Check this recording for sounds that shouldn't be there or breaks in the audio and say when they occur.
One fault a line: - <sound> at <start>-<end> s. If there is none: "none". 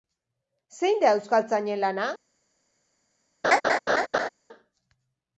- laugh at 3.4-4.3 s